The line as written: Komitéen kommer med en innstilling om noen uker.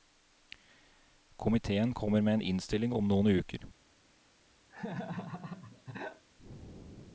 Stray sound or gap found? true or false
true